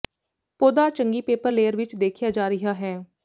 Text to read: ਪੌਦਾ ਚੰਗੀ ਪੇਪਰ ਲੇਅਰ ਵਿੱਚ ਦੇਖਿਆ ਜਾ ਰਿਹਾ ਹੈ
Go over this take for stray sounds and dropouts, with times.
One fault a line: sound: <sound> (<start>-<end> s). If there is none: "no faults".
no faults